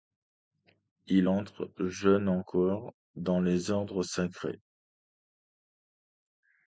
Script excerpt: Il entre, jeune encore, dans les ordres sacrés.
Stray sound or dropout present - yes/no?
no